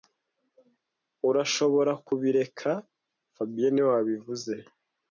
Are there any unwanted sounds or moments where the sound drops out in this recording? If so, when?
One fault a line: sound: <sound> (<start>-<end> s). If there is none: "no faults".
no faults